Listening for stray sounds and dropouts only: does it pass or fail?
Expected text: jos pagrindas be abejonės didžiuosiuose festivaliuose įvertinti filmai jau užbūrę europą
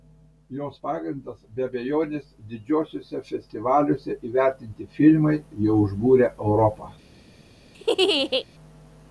fail